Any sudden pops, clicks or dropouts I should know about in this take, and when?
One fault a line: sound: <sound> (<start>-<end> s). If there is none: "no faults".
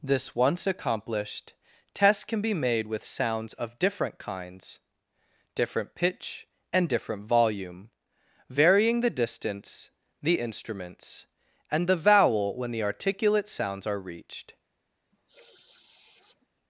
sound: sniff (15.1-16.5 s)